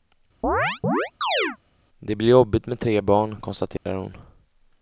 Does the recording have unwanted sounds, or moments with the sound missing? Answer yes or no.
yes